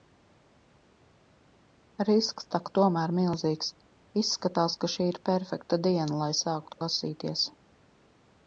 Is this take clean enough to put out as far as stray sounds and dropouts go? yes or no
yes